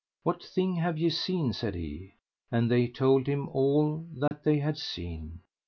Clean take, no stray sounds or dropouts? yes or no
no